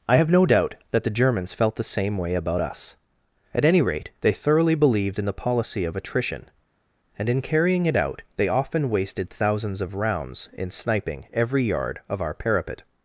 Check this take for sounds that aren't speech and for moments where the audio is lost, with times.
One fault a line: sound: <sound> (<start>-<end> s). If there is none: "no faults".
no faults